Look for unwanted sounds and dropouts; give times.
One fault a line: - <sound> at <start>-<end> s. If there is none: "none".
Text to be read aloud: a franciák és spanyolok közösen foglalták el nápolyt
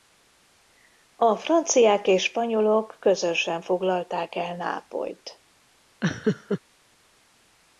- laugh at 6.0-6.6 s